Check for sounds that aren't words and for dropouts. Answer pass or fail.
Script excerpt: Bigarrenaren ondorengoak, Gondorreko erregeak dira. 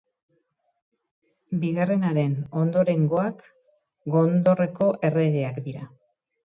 pass